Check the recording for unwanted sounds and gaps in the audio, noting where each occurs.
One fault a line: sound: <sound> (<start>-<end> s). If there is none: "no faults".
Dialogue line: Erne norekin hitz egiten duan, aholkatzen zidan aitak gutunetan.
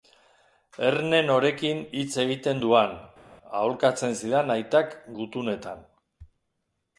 no faults